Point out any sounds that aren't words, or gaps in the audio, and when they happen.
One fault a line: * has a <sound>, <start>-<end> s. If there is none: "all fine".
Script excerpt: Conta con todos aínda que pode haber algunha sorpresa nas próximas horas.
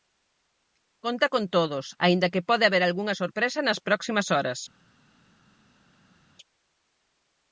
all fine